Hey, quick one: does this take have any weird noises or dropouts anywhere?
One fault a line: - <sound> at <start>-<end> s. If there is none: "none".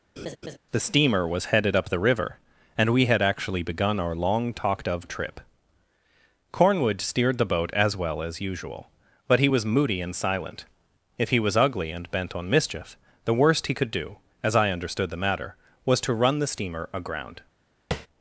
- laugh at 0.2-0.6 s
- tap at 17.9-18.1 s